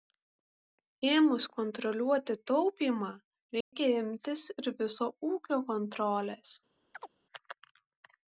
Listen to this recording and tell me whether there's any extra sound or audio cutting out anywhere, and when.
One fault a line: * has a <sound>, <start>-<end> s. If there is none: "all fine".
* has a dropout, 3.6-3.7 s
* has a chirp, 6.9-7.1 s